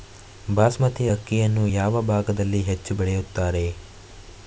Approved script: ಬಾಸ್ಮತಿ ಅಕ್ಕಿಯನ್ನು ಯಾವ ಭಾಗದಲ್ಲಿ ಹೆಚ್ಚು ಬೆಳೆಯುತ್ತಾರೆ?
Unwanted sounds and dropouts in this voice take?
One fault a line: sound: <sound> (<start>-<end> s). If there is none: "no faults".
no faults